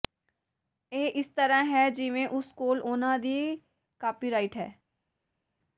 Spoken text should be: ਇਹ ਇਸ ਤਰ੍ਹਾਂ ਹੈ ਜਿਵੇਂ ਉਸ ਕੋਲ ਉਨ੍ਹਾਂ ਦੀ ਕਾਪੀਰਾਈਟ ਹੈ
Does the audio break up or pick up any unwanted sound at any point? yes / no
no